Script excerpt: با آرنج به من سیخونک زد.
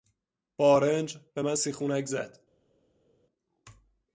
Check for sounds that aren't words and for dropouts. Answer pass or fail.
pass